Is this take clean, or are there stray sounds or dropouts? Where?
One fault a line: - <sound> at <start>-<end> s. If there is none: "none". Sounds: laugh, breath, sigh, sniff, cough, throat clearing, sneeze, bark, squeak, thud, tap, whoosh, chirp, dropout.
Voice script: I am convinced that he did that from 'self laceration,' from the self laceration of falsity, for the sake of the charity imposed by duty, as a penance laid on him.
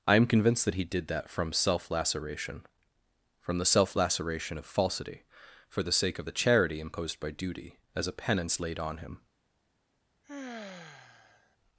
- sigh at 10.2-11.6 s